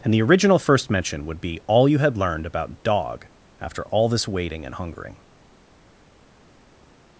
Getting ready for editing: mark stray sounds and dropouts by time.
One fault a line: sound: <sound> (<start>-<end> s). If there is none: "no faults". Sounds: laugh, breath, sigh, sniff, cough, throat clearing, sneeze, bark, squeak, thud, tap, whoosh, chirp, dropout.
no faults